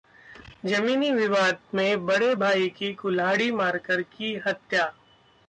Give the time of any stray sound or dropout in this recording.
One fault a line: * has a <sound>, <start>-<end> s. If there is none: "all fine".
all fine